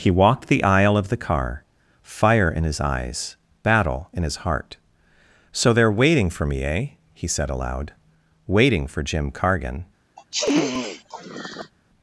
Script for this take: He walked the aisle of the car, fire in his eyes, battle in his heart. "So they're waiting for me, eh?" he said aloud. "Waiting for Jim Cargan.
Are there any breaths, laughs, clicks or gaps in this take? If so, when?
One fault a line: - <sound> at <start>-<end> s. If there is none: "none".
- sniff at 10.2-11.7 s